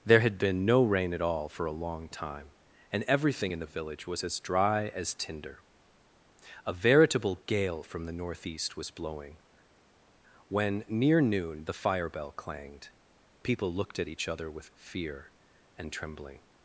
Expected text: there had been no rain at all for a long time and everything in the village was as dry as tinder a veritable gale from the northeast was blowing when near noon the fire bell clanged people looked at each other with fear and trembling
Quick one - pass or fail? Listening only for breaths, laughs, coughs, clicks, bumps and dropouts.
pass